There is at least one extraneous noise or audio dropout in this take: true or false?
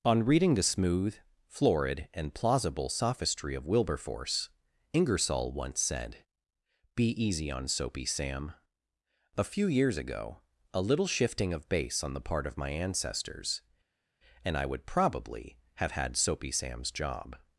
false